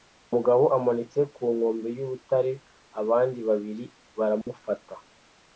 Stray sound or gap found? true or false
true